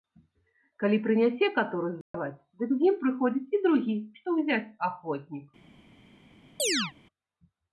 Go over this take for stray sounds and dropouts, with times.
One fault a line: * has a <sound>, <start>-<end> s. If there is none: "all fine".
* has a dropout, 2.0-2.1 s
* has a chirp, 6.6-6.9 s